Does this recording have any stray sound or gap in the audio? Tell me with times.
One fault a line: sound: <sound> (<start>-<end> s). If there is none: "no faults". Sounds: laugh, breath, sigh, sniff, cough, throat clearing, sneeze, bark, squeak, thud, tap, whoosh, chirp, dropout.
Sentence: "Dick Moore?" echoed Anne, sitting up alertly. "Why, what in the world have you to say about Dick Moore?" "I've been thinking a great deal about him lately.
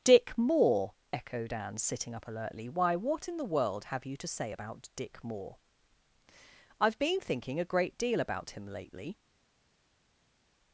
no faults